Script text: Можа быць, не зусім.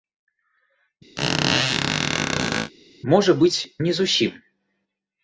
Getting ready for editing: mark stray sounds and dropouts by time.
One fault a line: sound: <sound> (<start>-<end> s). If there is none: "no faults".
sound: squeak (1.2-2.7 s)